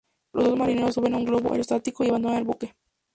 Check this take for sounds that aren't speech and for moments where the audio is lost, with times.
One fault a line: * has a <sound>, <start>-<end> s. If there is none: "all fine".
all fine